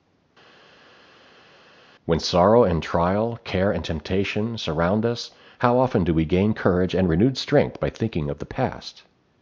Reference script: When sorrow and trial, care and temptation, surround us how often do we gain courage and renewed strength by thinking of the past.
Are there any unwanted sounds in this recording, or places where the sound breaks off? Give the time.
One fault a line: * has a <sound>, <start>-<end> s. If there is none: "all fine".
all fine